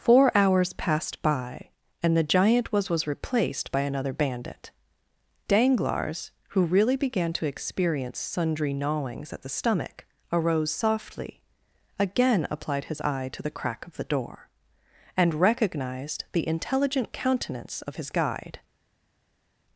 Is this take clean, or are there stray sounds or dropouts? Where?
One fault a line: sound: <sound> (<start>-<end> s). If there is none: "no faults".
no faults